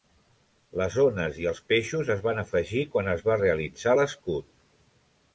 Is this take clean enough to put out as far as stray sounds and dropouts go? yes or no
yes